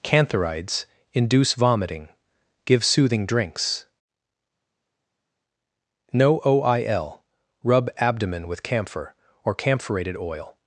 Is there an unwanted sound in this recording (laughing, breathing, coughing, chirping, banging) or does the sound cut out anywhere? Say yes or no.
no